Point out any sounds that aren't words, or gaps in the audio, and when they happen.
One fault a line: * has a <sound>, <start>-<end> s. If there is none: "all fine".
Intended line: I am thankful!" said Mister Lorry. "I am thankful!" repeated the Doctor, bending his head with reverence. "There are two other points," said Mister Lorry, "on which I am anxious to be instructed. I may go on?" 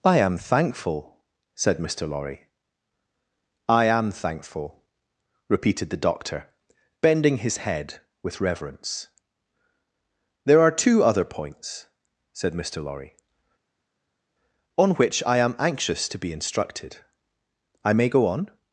all fine